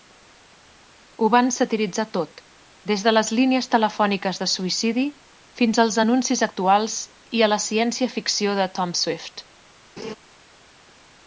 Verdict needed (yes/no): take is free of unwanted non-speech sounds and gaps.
no